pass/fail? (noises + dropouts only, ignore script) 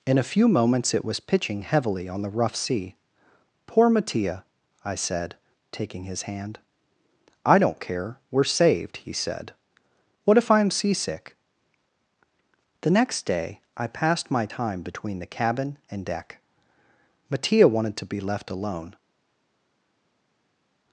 pass